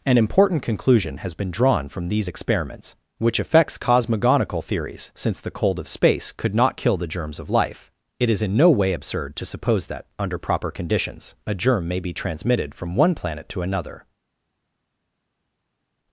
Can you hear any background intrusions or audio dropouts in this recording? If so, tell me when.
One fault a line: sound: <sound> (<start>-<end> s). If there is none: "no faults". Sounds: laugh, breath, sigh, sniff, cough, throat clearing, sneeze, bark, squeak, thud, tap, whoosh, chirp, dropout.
no faults